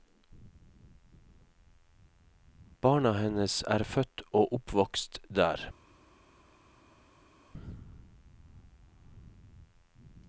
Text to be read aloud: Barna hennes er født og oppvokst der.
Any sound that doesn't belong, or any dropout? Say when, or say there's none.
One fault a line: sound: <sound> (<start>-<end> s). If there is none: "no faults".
no faults